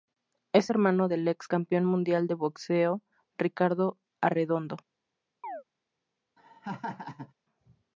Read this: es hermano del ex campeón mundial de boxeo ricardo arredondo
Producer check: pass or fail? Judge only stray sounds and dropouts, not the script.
fail